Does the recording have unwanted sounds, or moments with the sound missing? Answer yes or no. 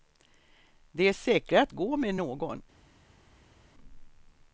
no